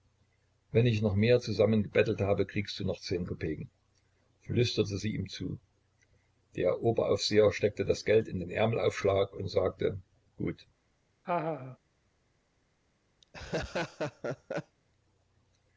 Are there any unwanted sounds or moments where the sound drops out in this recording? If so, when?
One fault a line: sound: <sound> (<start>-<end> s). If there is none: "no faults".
sound: laugh (11.2-11.8 s)
sound: laugh (13.2-14.8 s)